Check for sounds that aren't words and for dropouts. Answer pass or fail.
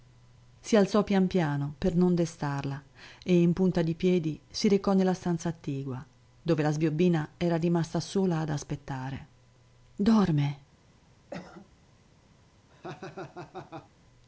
fail